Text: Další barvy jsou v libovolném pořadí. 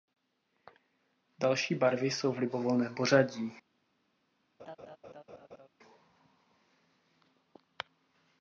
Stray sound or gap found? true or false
true